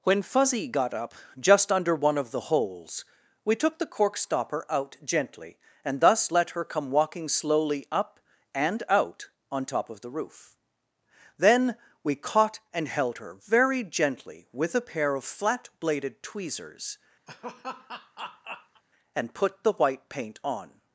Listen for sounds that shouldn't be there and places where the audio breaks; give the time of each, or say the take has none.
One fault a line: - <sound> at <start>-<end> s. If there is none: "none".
- laugh at 17.3-18.8 s